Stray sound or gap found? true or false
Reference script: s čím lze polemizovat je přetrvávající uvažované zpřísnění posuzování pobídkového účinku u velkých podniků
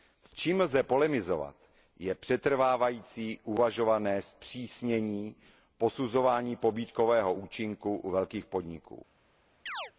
true